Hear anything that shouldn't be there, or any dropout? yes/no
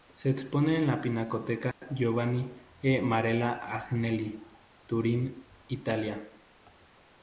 yes